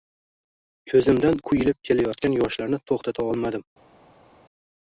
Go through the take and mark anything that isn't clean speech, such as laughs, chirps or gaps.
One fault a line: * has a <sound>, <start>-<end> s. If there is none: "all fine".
all fine